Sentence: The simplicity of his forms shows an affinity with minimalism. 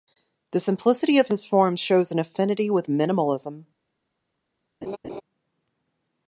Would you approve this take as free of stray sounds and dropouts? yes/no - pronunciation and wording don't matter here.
no